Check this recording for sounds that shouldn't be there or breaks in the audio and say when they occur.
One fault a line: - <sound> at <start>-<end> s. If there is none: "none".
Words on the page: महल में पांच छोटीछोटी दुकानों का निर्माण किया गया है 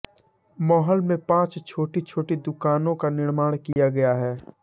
- dropout at 3.7-3.8 s